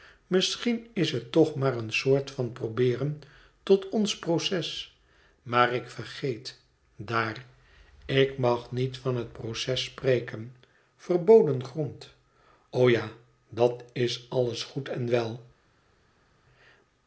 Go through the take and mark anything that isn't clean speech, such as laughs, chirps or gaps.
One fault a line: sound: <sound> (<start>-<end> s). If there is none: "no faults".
no faults